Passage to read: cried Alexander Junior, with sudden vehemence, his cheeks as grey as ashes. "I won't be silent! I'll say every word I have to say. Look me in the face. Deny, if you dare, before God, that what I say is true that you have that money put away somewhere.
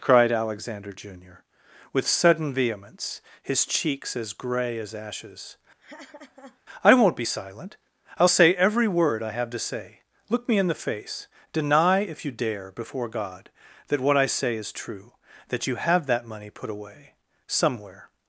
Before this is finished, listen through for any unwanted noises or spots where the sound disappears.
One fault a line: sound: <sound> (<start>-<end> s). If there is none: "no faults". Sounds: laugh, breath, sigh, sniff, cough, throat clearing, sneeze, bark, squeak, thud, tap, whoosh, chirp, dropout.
sound: laugh (5.8-6.6 s)